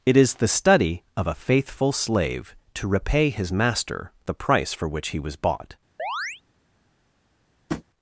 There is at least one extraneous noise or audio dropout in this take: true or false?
true